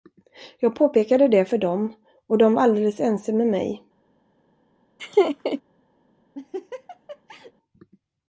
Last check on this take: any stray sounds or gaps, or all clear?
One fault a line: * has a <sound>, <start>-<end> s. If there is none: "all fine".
* has a laugh, 5.0-5.6 s
* has a laugh, 6.3-7.5 s